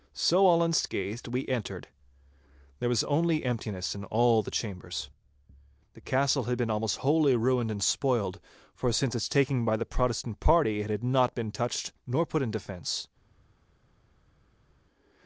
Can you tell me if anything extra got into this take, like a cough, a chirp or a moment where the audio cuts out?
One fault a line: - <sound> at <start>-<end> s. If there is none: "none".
none